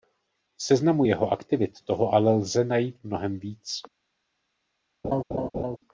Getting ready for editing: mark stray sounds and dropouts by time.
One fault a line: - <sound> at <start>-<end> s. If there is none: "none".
- laugh at 5.0-5.8 s